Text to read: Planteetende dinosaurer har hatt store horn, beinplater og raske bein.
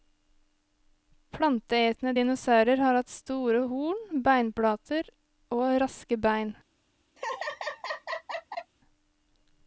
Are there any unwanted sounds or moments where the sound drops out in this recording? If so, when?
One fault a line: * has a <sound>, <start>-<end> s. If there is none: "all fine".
* has a laugh, 7.2-8.7 s